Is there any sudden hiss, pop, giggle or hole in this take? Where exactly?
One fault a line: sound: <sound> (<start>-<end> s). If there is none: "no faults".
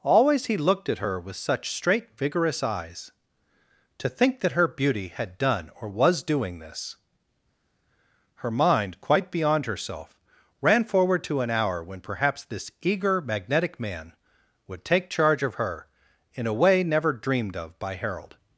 no faults